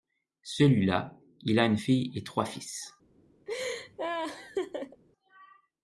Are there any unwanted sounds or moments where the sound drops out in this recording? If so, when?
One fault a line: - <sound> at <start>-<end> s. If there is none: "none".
- laugh at 3.5-5.0 s